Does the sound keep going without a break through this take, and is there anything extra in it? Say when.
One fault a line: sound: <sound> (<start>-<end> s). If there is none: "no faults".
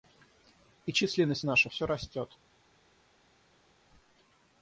no faults